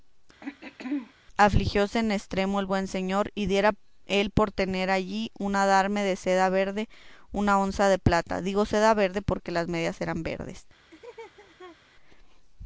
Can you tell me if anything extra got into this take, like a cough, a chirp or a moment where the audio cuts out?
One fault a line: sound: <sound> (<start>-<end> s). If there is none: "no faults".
sound: throat clearing (0.4-1.1 s)
sound: laugh (10.9-11.8 s)